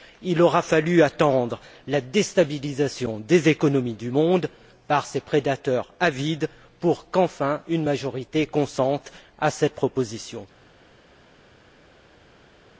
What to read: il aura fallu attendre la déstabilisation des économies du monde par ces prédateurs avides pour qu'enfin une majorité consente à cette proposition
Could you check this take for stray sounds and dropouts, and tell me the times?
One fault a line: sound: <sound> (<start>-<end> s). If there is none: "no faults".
no faults